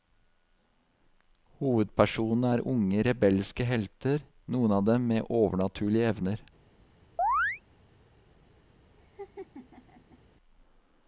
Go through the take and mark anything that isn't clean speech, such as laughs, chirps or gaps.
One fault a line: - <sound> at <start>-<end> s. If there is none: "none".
- chirp at 7.2-7.6 s
- laugh at 9.0-10.2 s